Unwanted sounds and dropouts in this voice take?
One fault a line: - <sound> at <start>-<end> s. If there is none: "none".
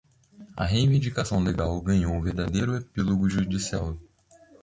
none